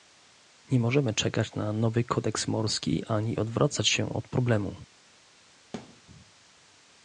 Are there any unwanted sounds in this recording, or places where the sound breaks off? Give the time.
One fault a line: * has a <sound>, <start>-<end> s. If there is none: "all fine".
* has a thud, 5.7-6.0 s